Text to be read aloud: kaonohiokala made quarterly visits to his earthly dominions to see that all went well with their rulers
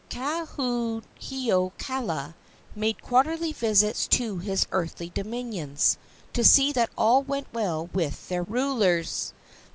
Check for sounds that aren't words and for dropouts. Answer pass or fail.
pass